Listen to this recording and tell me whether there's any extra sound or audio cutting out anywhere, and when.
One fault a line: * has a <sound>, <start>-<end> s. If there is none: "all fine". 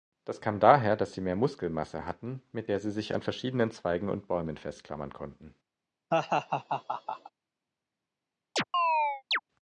* has a laugh, 6.1-7.3 s
* has a chirp, 8.6-9.4 s